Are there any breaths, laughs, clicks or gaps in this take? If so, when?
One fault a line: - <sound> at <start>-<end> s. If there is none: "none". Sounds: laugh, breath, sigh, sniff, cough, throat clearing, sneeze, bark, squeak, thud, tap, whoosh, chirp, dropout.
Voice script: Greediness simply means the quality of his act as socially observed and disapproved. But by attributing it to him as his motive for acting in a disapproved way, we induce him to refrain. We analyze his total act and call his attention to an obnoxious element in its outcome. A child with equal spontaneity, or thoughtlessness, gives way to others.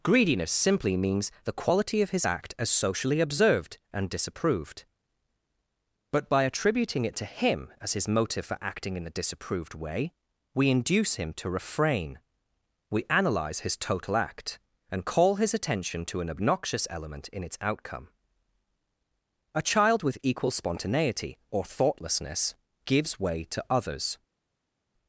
none